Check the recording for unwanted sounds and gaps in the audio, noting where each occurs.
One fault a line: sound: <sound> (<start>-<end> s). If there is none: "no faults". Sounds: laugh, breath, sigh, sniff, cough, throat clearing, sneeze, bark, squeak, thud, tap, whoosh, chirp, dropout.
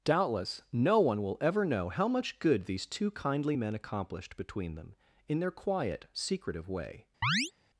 sound: chirp (7.2-7.5 s)